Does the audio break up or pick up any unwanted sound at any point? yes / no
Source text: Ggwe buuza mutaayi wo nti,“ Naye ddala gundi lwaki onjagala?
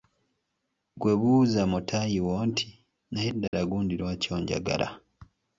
yes